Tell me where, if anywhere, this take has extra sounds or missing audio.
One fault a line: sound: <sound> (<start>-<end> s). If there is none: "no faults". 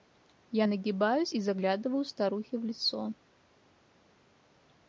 no faults